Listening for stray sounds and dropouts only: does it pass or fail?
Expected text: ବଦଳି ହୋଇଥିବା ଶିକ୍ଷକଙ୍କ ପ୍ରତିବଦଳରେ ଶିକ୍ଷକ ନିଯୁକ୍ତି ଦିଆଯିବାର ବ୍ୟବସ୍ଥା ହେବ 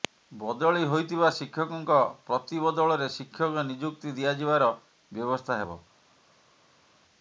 pass